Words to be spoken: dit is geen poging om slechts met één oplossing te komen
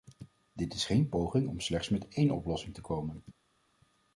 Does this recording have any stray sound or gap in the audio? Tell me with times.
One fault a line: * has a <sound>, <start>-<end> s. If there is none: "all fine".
all fine